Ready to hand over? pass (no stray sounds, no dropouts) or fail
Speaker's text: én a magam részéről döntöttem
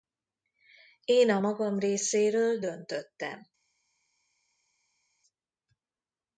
pass